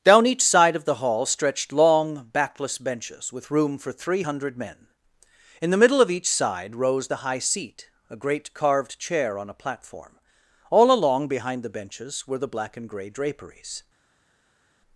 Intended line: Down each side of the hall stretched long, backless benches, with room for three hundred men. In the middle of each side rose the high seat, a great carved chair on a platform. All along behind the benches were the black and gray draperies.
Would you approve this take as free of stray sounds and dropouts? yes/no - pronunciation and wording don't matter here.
yes